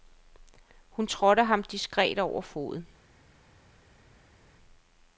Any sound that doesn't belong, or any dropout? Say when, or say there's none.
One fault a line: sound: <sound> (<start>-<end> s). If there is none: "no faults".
no faults